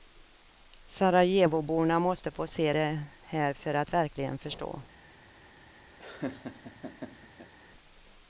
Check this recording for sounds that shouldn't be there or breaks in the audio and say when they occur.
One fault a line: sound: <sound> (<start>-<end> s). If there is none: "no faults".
sound: laugh (6.0-7.5 s)